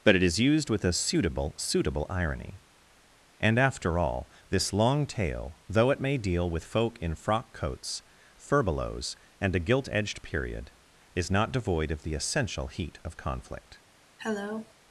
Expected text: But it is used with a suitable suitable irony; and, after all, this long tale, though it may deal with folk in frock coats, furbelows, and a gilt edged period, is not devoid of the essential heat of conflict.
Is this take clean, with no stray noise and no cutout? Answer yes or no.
no